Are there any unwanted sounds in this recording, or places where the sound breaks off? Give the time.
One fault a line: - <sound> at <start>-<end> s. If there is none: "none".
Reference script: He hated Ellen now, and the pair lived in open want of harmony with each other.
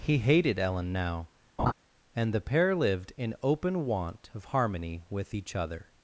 - laugh at 1.6-1.7 s